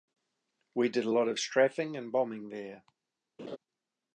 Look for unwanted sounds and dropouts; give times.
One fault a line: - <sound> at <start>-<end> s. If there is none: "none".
- laugh at 3.4-3.6 s